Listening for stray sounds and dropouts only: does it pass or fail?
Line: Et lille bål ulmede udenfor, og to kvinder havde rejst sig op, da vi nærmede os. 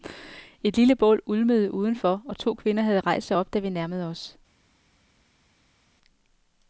pass